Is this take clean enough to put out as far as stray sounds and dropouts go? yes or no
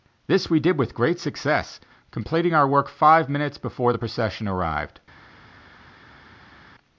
yes